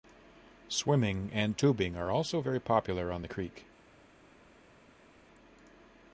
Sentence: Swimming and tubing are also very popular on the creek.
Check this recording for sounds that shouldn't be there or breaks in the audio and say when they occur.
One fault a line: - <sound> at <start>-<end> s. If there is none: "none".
none